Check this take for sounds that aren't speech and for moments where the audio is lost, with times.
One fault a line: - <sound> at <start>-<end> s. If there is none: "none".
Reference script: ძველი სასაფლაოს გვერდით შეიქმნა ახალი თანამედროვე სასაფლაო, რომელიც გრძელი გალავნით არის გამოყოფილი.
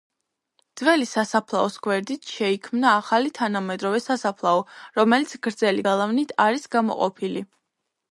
none